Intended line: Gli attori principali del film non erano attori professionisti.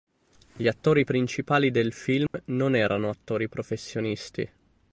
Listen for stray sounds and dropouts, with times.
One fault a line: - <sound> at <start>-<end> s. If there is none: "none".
- dropout at 2.3-2.3 s